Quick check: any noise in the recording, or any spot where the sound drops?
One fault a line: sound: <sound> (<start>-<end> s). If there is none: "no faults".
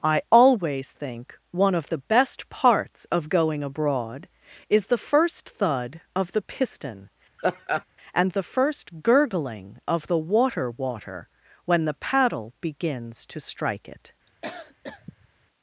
sound: laugh (7.4-7.8 s)
sound: cough (14.3-15.3 s)